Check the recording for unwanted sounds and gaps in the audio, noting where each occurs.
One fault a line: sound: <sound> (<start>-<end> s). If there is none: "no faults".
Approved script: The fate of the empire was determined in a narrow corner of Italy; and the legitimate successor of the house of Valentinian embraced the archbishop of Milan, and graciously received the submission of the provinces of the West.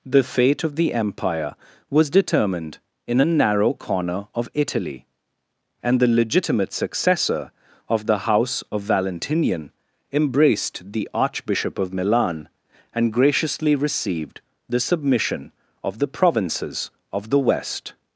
no faults